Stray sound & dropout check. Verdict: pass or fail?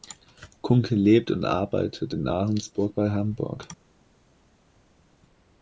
pass